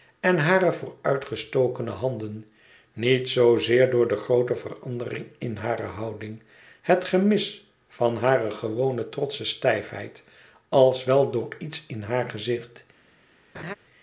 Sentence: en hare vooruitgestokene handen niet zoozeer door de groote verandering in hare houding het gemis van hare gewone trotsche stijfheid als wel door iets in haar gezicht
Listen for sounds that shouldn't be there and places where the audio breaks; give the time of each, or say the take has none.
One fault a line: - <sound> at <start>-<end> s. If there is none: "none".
- laugh at 13.5-13.7 s